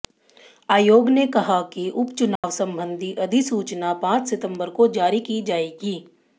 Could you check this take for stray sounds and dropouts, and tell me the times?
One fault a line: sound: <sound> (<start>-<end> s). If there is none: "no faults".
sound: dropout (2.4-2.4 s)